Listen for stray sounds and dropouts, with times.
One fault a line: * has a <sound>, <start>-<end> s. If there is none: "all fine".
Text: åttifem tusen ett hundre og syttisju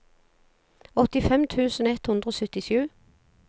all fine